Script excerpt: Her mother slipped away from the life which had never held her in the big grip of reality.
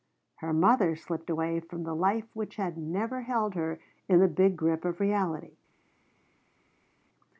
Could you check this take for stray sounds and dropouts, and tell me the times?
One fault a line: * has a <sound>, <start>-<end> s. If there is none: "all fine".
all fine